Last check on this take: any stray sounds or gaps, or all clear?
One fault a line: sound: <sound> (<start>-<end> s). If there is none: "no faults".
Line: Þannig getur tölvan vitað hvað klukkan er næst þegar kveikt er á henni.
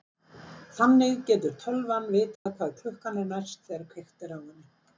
sound: dropout (2.4-2.5 s)